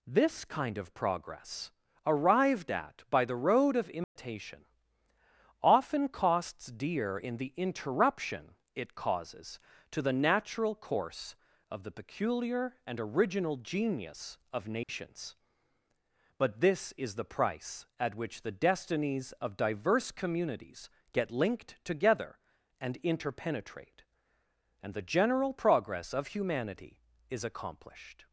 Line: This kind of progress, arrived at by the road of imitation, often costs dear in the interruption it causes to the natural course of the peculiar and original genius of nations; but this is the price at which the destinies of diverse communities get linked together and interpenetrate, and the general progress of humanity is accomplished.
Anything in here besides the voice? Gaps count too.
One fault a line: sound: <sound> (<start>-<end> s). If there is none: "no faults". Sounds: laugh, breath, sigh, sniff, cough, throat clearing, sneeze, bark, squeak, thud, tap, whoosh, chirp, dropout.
sound: dropout (4.0-4.2 s)
sound: dropout (14.8-14.9 s)